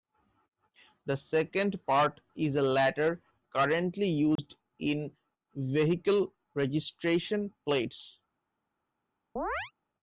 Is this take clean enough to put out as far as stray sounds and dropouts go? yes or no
no